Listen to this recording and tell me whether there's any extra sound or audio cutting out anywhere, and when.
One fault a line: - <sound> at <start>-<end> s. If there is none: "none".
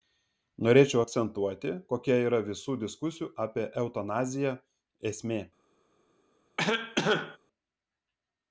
- cough at 6.6-7.4 s